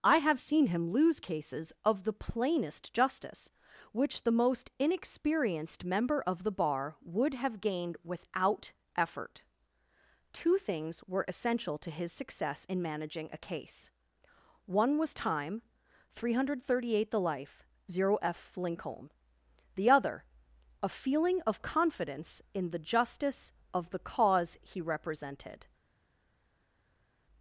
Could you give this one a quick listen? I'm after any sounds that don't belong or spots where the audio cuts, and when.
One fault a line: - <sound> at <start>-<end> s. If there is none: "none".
none